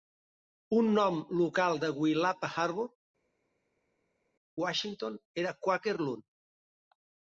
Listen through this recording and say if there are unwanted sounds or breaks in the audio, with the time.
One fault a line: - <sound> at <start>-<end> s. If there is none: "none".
none